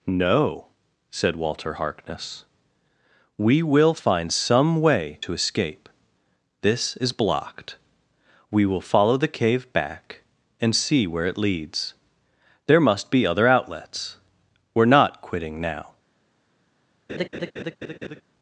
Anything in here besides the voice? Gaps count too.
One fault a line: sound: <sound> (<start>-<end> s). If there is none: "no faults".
sound: laugh (17.1-18.2 s)